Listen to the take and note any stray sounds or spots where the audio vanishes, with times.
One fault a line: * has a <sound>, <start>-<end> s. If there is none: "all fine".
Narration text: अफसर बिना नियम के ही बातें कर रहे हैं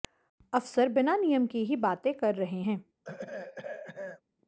* has a throat clearing, 3.0-4.2 s